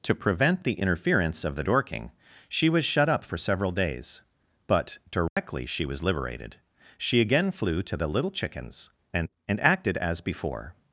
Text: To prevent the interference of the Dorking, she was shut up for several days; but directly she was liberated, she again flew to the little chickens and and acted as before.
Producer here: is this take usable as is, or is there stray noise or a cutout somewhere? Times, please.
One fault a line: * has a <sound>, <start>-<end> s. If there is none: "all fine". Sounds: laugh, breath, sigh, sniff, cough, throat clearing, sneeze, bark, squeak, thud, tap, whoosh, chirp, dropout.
* has a dropout, 5.3-5.4 s